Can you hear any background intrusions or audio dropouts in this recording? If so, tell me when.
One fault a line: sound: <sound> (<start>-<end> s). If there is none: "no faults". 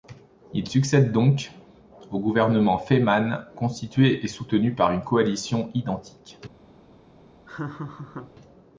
sound: laugh (7.5-8.3 s)